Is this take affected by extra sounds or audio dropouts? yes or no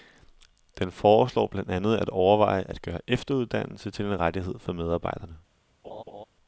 yes